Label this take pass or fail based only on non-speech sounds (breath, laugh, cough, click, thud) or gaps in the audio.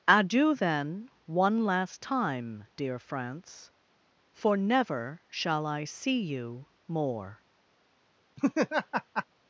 fail